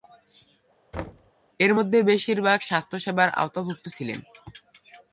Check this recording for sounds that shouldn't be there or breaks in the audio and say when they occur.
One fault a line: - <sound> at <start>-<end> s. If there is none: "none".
- thud at 0.9-1.3 s